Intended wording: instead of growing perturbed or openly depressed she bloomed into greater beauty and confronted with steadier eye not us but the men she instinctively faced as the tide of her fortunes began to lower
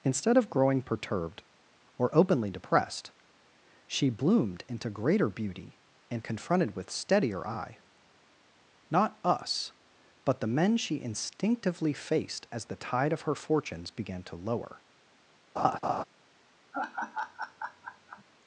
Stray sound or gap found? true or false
true